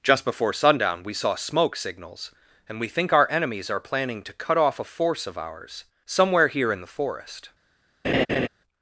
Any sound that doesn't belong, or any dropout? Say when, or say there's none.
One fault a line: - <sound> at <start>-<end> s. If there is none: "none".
- laugh at 8.0-8.5 s